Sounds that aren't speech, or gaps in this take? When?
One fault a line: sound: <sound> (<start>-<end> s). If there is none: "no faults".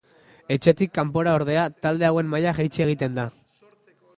no faults